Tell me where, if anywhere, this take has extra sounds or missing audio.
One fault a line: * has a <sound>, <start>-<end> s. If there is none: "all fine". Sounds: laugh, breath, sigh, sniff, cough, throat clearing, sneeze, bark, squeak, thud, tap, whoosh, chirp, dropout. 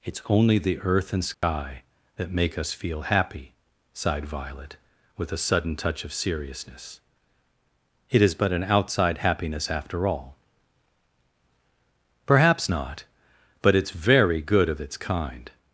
* has a dropout, 1.3-1.4 s